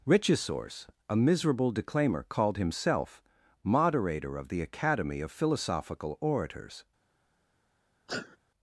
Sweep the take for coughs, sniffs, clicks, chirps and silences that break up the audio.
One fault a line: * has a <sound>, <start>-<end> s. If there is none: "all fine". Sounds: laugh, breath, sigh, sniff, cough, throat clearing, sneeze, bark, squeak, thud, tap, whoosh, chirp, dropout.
* has a sneeze, 8.1-8.4 s